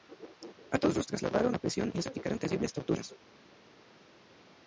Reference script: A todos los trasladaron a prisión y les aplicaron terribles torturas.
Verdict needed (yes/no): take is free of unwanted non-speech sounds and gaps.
yes